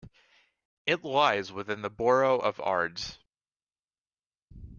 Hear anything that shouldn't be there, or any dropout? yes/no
no